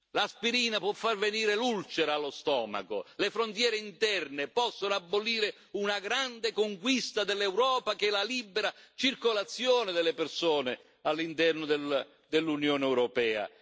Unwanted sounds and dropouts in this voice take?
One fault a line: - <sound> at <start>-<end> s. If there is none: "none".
none